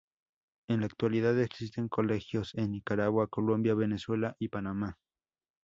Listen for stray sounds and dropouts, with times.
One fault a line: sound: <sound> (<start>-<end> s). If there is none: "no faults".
no faults